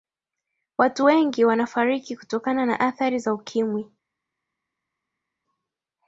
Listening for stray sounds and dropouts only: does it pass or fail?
pass